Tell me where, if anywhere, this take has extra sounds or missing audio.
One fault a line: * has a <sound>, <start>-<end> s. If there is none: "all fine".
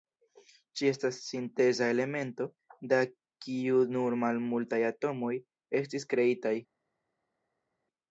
all fine